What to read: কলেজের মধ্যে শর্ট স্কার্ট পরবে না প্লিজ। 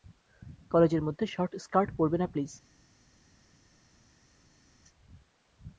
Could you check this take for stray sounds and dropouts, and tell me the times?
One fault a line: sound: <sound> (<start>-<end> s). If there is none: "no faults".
no faults